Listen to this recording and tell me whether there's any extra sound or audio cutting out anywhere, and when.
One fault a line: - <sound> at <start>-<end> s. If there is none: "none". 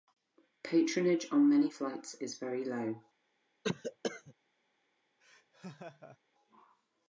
- cough at 3.6-4.3 s
- laugh at 5.2-6.2 s